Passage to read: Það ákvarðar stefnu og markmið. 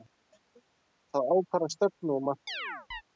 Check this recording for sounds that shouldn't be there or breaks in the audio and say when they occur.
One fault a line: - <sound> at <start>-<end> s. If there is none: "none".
- chirp at 2.5-3.0 s